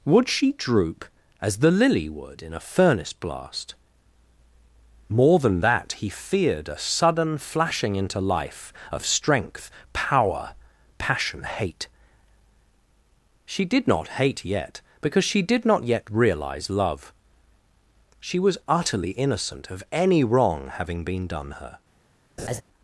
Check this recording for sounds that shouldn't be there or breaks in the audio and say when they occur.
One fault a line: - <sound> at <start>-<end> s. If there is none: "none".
- laugh at 22.4-22.6 s